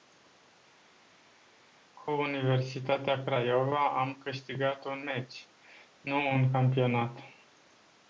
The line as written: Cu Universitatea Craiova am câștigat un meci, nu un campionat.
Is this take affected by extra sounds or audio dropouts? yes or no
no